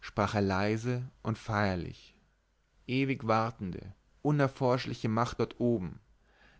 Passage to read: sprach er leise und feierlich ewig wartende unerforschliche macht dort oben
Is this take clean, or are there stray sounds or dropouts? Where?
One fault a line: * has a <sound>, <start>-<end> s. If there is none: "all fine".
all fine